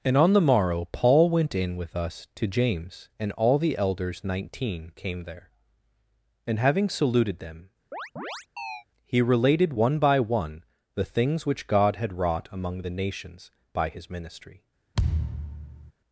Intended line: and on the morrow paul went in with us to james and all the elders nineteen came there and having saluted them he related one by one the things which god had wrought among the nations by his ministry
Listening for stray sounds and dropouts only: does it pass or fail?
fail